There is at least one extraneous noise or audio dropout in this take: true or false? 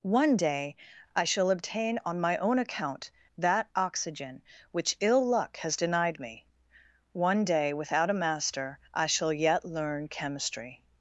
false